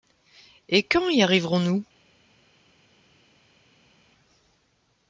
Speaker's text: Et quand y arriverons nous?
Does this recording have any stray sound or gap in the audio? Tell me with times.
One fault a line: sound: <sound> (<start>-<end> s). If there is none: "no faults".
no faults